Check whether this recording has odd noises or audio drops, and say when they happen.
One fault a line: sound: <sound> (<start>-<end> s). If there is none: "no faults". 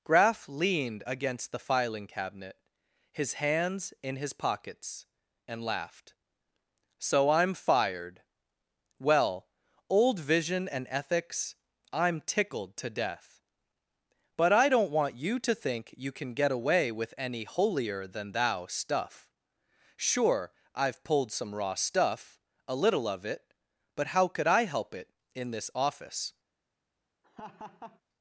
sound: laugh (27.2-28.0 s)